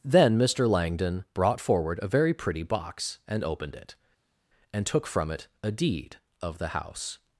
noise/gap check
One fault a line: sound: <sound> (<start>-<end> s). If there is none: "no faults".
no faults